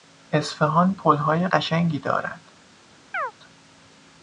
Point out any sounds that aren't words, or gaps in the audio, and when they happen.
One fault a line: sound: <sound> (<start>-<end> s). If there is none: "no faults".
sound: chirp (3.1-3.3 s)